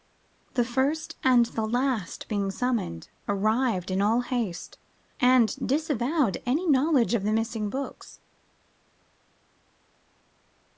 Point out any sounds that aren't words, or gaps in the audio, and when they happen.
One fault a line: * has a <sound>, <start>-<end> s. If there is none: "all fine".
all fine